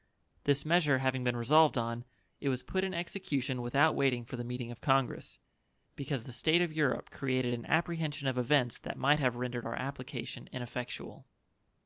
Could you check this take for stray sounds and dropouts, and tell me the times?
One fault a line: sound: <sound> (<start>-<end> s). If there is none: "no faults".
no faults